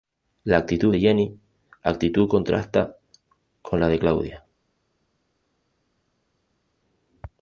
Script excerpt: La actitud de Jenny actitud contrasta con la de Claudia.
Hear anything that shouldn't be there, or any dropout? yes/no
no